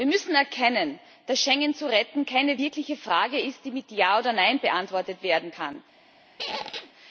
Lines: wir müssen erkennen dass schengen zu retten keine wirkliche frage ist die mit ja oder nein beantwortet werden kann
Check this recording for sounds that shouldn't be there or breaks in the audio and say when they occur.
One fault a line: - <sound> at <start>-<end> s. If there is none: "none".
- squeak at 6.4-6.9 s